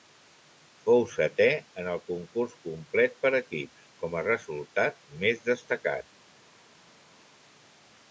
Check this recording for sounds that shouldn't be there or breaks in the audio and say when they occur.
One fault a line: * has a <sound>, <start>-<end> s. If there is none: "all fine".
all fine